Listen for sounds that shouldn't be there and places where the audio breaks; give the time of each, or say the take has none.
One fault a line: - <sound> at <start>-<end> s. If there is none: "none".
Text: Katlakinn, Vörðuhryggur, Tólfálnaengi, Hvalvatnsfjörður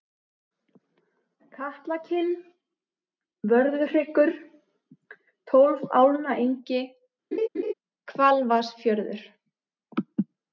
- laugh at 7.3-7.7 s